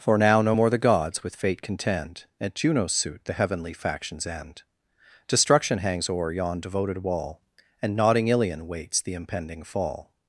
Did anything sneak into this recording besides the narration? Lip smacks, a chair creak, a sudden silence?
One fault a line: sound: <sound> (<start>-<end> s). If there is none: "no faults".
no faults